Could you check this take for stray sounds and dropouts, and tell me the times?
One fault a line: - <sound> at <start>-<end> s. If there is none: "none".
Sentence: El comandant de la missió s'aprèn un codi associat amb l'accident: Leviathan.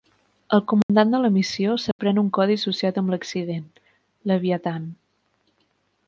- dropout at 0.8-0.9 s
- dropout at 1.9-2.0 s